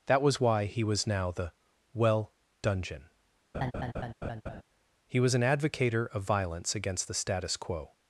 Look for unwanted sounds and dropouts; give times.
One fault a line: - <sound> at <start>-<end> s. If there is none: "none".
- laugh at 3.5-4.6 s